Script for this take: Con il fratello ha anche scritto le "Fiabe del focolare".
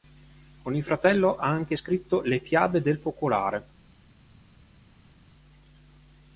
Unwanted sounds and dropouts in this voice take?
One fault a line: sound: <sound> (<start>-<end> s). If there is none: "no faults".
no faults